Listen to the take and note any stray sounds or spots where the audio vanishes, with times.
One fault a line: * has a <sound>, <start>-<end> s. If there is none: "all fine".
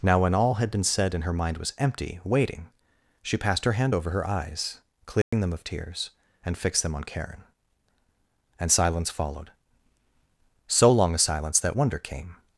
* has a dropout, 5.2-5.3 s